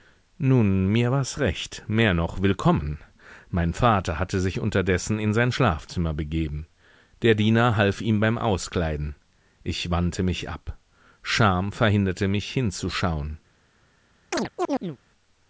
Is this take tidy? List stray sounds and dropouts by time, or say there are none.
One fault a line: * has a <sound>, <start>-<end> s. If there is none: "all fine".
* has a chirp, 14.3-15.0 s